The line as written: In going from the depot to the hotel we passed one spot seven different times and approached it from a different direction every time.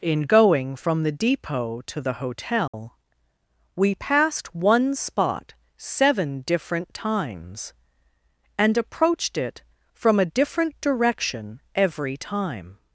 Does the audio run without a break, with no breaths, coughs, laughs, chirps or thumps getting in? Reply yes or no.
no